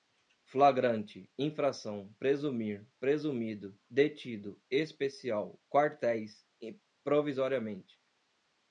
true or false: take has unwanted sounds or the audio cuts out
false